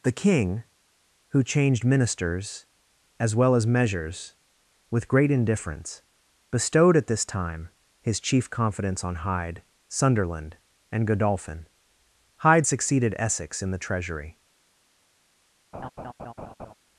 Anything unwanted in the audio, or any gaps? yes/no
yes